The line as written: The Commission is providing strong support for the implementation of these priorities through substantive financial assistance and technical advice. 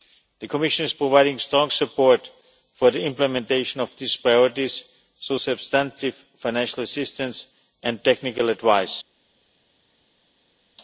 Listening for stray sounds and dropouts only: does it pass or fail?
pass